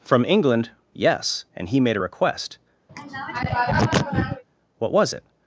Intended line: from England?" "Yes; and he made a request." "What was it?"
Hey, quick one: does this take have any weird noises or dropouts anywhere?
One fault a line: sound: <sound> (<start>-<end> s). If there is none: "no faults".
sound: throat clearing (2.9-4.4 s)